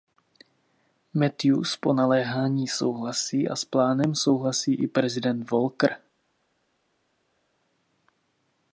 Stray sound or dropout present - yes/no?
no